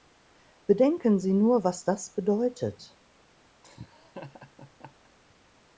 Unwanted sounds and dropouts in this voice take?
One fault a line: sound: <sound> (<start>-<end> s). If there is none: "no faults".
sound: laugh (3.6-5.1 s)